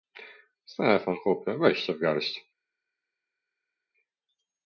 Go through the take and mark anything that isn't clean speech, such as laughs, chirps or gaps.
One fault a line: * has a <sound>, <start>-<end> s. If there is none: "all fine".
all fine